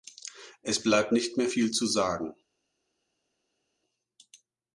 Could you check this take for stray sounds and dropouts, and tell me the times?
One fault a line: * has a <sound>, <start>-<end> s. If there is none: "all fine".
all fine